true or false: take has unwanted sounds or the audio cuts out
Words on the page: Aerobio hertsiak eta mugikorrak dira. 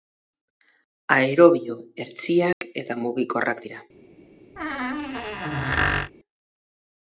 true